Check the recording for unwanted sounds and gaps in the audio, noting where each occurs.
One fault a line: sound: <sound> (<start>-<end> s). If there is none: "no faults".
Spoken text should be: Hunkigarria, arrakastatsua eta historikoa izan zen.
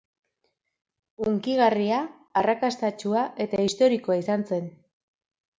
no faults